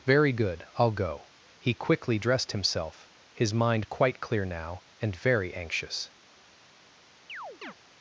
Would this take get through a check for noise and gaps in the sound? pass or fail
fail